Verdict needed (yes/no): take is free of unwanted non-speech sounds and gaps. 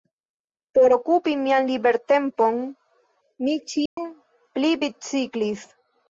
no